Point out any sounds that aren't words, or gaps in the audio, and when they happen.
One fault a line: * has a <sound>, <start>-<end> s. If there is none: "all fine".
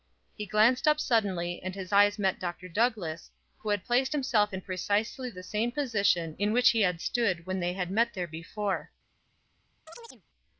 * has a chirp, 9.9-10.2 s